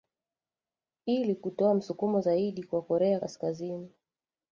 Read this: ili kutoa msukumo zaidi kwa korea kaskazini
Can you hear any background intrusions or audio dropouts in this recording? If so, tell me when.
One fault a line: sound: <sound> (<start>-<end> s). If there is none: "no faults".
no faults